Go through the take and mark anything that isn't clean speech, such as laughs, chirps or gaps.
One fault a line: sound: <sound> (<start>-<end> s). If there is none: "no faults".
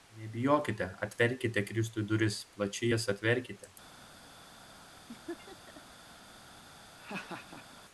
sound: laugh (5.1-5.8 s)
sound: laugh (7.0-7.8 s)